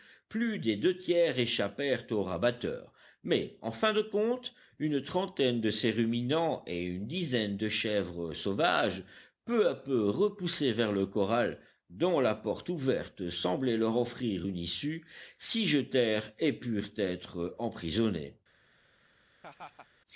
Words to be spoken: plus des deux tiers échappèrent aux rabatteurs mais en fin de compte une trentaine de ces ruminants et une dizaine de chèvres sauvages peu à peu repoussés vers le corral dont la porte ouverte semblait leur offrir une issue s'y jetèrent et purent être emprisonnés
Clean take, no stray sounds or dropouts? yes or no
no